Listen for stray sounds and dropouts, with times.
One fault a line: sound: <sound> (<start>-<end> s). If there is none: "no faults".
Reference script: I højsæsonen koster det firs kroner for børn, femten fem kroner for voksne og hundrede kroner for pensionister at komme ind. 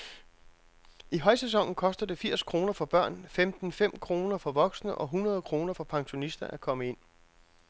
no faults